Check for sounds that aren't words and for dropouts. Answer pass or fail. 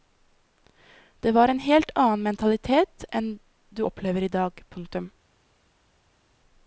pass